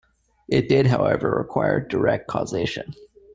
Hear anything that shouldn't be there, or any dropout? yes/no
no